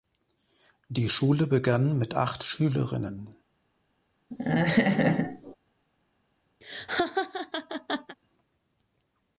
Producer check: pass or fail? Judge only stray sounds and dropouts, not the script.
fail